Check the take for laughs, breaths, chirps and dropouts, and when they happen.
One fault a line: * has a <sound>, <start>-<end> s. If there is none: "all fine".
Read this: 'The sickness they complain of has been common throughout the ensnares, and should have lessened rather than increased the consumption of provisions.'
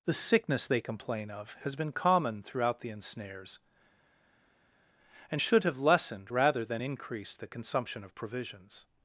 all fine